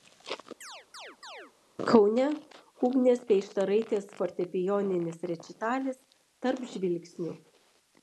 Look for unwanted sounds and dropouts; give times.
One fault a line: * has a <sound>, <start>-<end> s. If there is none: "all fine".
* has a chirp, 0.6-1.5 s